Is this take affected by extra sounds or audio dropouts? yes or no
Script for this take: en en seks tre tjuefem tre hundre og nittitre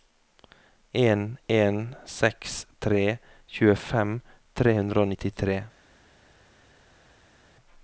no